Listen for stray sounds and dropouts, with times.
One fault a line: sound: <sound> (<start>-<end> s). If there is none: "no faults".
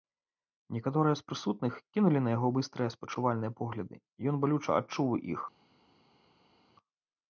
no faults